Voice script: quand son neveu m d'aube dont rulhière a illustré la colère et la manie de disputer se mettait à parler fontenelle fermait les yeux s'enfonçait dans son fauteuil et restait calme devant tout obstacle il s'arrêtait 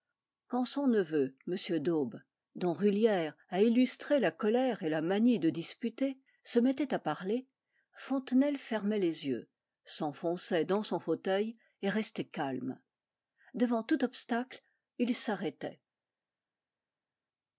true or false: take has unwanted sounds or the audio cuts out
false